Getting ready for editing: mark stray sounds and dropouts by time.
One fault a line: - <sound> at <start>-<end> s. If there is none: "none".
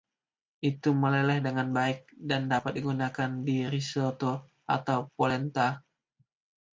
none